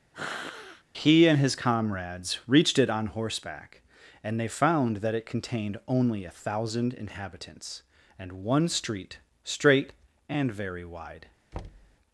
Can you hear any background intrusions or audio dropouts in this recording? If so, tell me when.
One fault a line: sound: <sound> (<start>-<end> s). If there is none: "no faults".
sound: sniff (0.1-0.8 s)
sound: thud (11.5-12.0 s)